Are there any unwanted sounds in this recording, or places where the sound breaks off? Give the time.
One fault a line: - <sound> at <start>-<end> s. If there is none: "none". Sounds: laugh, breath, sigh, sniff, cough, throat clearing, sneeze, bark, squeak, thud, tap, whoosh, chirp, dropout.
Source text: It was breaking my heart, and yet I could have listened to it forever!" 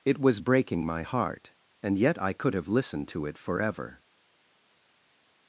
none